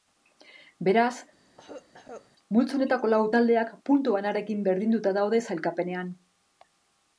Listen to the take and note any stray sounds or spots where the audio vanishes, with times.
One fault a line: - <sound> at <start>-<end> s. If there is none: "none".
- cough at 1.4-2.3 s